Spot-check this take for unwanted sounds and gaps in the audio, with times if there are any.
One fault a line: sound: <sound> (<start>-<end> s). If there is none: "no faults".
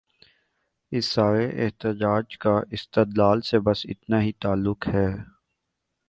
no faults